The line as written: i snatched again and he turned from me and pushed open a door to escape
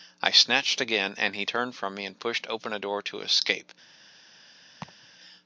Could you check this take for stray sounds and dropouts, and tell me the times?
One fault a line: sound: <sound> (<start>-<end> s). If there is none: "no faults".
sound: laugh (4.8-5.1 s)